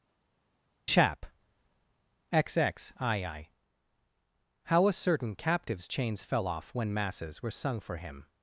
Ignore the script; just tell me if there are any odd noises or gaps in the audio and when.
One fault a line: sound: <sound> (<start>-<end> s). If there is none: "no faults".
no faults